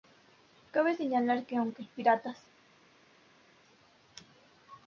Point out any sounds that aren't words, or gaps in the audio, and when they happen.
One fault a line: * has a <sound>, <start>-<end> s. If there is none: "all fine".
all fine